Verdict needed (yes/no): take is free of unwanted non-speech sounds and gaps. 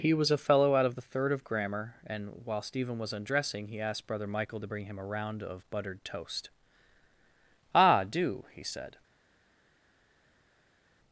yes